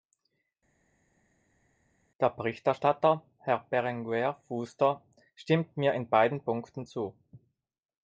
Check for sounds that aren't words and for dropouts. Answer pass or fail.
pass